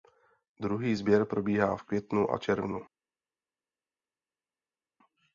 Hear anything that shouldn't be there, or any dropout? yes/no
no